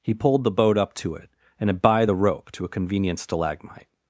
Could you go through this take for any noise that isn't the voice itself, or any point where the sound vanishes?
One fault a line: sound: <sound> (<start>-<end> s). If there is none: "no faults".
no faults